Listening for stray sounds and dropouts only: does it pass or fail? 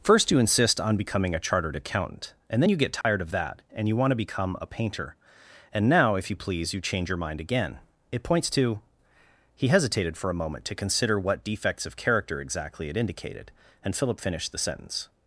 fail